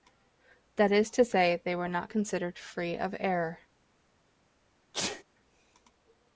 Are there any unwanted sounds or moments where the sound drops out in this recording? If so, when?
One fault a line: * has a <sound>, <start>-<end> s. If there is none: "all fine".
* has a sneeze, 4.9-5.2 s